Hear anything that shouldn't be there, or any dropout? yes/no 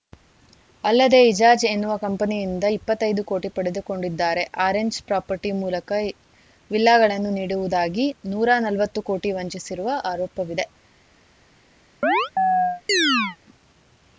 yes